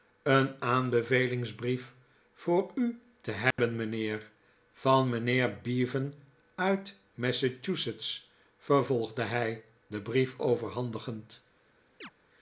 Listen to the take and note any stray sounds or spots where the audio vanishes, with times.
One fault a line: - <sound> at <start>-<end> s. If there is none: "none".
- dropout at 3.5-3.6 s
- chirp at 12.0-12.1 s